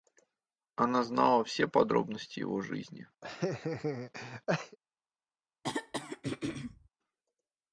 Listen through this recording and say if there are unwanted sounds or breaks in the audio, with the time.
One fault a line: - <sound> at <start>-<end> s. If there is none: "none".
- laugh at 3.2-4.8 s
- throat clearing at 5.6-6.9 s